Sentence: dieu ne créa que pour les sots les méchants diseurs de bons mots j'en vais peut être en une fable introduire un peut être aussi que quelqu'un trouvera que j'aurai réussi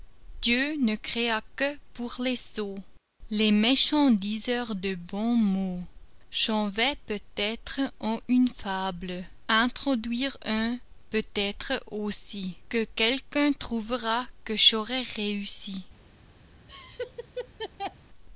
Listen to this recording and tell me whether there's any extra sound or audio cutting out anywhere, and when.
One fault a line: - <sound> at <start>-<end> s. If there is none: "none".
- laugh at 16.7-18.0 s